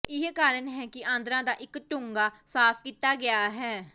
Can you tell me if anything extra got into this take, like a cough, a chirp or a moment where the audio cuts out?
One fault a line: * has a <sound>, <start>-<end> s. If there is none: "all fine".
all fine